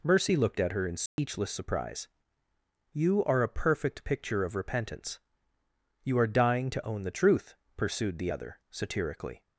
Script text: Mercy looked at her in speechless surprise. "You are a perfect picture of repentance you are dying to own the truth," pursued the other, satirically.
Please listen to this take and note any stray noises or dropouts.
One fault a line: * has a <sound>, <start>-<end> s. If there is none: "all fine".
* has a dropout, 1.1-1.2 s